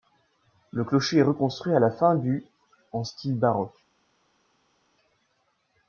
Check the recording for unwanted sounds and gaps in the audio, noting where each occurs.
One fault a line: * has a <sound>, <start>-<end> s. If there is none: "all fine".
all fine